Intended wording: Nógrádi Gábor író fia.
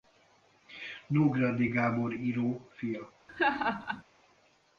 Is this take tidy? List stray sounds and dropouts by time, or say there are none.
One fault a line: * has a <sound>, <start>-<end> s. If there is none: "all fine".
* has a laugh, 3.3-4.0 s